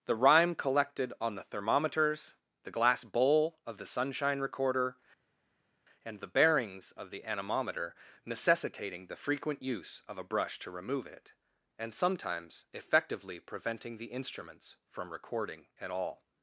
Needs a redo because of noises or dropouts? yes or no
no